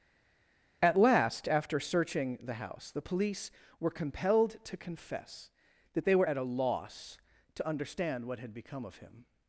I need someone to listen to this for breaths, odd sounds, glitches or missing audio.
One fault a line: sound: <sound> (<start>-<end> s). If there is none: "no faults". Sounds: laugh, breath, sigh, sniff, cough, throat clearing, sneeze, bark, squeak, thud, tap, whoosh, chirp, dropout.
no faults